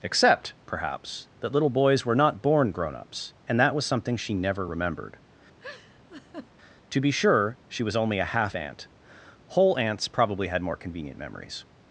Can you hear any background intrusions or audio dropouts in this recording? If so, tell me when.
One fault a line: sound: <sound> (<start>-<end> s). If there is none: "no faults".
sound: laugh (5.6-6.5 s)